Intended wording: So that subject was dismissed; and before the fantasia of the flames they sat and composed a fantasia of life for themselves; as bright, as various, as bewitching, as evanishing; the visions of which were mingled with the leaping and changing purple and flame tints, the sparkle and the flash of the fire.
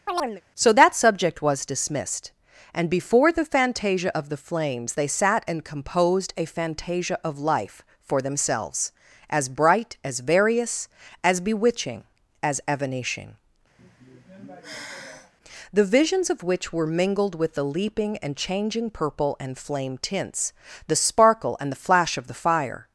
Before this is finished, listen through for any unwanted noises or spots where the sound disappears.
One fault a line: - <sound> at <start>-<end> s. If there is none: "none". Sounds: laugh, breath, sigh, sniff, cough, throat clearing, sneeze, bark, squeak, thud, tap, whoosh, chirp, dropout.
- chirp at 0.1-0.4 s
- sigh at 13.8-15.3 s